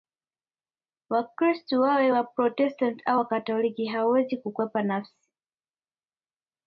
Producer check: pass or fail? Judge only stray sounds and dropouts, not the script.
pass